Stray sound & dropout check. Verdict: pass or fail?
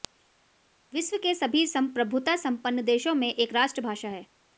pass